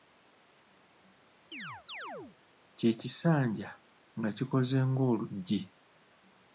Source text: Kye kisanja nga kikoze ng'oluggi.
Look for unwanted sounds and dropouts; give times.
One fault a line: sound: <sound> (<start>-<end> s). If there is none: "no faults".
sound: chirp (1.5-2.4 s)